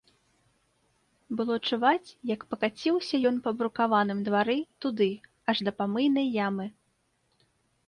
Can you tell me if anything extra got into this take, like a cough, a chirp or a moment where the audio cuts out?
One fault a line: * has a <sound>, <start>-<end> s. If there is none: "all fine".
all fine